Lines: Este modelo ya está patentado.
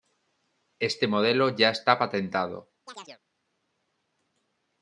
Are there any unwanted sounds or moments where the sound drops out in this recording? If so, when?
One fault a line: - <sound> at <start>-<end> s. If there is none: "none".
- chirp at 2.9-3.2 s